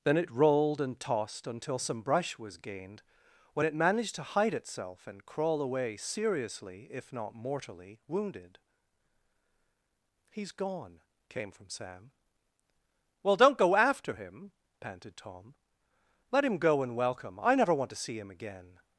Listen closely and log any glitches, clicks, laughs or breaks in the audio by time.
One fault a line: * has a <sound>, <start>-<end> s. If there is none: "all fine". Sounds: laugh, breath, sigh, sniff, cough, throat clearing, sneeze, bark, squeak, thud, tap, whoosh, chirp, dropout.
all fine